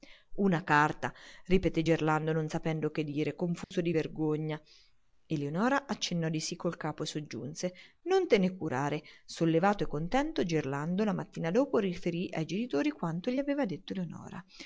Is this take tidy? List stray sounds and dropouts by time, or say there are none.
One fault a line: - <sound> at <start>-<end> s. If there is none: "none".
- dropout at 3.6-3.7 s